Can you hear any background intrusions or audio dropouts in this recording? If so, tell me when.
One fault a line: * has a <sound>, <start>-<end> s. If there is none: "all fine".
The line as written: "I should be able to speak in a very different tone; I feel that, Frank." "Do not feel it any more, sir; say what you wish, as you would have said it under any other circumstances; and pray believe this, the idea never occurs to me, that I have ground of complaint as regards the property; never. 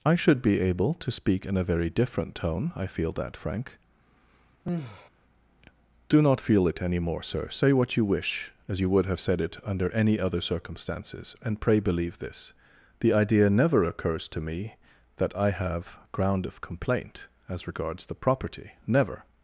* has a sigh, 4.6-5.1 s